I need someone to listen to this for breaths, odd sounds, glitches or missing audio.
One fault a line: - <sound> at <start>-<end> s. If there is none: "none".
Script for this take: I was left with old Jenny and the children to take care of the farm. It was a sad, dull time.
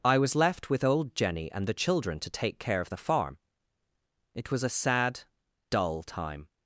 none